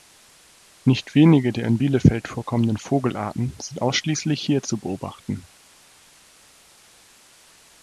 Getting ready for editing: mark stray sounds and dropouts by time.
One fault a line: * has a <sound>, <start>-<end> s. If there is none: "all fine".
all fine